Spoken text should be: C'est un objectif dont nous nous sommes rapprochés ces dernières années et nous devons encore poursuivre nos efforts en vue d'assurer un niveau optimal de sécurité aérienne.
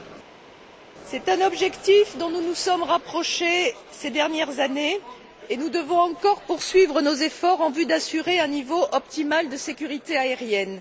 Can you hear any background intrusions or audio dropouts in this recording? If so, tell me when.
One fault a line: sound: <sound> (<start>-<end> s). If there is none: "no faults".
no faults